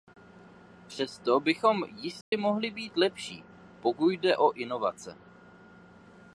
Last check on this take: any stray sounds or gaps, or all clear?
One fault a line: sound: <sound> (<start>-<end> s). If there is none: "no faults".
sound: dropout (2.2-2.3 s)